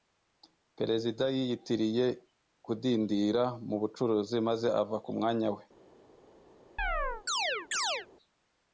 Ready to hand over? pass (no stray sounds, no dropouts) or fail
fail